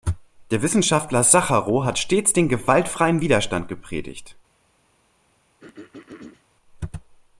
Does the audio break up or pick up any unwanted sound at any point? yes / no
yes